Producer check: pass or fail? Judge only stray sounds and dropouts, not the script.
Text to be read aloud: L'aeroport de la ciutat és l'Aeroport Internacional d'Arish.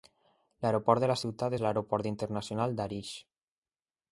pass